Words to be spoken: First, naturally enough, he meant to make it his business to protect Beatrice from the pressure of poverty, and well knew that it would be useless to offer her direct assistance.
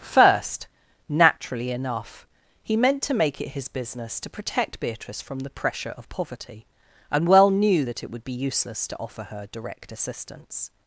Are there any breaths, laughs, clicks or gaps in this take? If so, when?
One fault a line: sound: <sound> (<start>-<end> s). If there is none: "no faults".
no faults